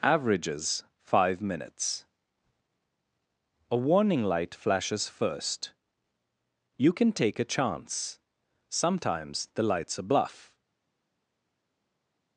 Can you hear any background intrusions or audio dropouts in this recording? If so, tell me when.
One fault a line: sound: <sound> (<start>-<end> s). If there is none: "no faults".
no faults